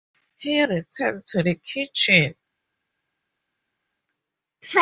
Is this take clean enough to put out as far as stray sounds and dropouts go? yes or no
yes